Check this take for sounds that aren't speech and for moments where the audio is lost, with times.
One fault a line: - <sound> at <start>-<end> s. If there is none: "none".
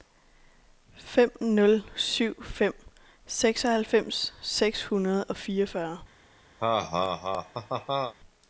- laugh at 6.6-8.1 s